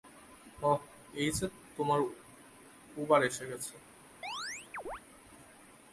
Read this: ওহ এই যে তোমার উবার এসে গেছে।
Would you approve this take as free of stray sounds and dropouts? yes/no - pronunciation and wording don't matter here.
no